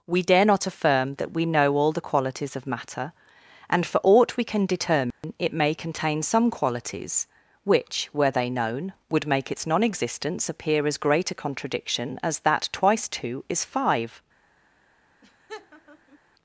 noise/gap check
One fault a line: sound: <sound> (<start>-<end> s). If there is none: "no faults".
sound: dropout (5.1-5.2 s)
sound: laugh (15.2-16.2 s)